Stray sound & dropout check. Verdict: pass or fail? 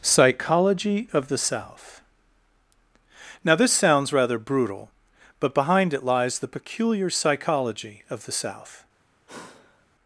fail